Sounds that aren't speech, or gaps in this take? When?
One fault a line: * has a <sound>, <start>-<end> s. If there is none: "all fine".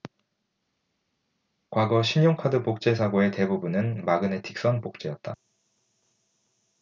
all fine